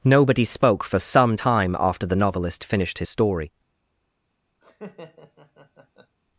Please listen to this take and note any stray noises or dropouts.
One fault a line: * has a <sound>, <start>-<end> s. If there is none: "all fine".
* has a laugh, 4.6-6.2 s